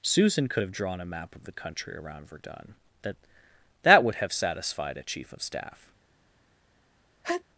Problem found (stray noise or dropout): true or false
true